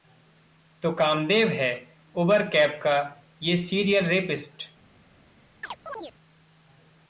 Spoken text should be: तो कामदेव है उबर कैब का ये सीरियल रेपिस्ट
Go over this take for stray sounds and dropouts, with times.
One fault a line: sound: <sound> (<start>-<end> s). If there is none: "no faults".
sound: chirp (5.6-6.1 s)